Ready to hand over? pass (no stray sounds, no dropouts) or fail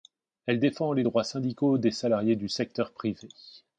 pass